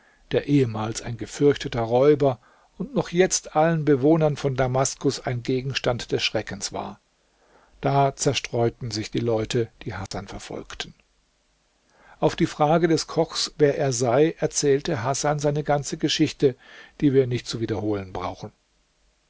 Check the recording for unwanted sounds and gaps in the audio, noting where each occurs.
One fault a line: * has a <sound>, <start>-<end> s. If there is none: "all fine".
* has a dropout, 10.1-10.1 s